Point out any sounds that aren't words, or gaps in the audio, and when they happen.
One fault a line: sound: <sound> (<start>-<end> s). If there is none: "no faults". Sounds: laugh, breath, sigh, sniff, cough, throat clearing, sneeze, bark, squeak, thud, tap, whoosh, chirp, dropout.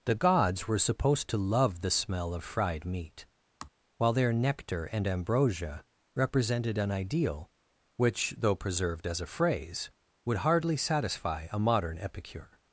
sound: sigh (3.6-3.7 s)